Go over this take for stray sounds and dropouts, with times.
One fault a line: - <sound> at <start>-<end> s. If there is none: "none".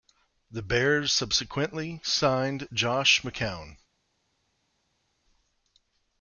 none